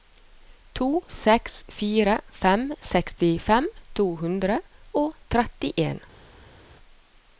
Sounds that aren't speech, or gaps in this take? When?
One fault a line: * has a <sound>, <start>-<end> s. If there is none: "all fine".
all fine